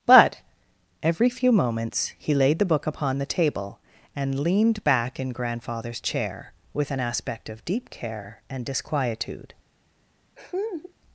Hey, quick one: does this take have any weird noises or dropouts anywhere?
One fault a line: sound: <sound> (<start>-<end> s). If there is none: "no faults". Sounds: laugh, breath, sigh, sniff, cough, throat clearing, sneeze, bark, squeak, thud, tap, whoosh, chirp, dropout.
sound: laugh (10.4-10.9 s)